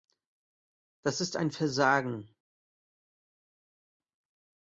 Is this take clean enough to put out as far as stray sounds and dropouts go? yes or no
yes